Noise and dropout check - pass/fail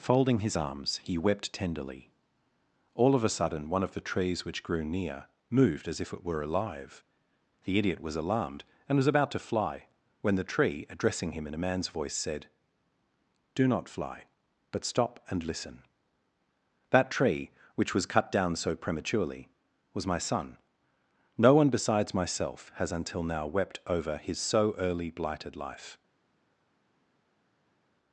pass